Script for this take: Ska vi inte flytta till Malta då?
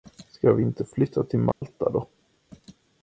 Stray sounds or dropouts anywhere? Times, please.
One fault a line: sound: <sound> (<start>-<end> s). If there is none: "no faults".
sound: dropout (1.5-1.6 s)